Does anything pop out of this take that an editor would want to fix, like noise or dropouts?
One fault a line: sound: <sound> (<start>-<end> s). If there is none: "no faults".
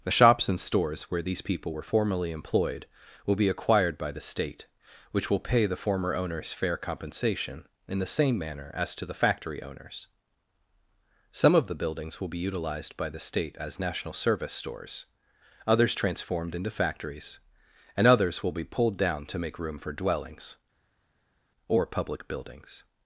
no faults